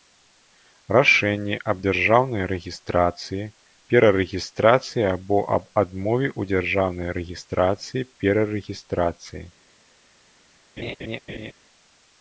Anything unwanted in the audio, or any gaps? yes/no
yes